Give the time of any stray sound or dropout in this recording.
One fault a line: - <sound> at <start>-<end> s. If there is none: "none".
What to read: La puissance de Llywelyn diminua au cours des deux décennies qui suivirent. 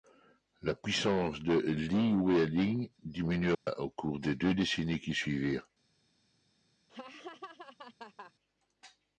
- dropout at 3.5-3.7 s
- laugh at 6.9-8.3 s